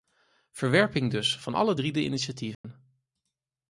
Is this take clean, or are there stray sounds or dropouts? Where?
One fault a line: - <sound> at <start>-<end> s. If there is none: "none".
- dropout at 2.5-2.6 s